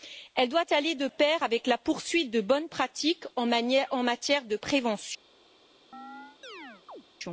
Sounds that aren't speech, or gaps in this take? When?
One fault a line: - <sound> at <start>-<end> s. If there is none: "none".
- chirp at 5.9-7.0 s